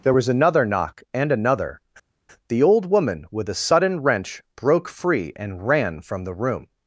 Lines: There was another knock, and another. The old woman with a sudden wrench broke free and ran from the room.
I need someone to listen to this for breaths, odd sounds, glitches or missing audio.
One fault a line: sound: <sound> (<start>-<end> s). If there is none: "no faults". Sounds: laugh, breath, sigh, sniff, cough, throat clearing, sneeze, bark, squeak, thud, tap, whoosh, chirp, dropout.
no faults